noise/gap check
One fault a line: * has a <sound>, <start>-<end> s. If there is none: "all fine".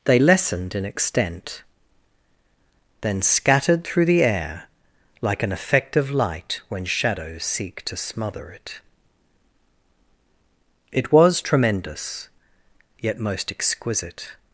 all fine